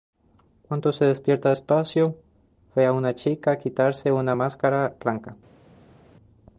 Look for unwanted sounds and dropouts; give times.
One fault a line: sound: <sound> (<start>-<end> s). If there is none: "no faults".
no faults